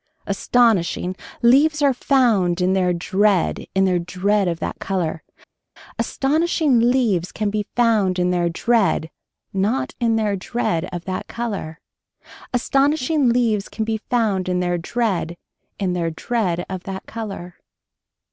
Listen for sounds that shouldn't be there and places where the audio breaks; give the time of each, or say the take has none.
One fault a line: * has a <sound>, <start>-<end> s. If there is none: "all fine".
all fine